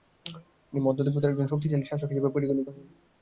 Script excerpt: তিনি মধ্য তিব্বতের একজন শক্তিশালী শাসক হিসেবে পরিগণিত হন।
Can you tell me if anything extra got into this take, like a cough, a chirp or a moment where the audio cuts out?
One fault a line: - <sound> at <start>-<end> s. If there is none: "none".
none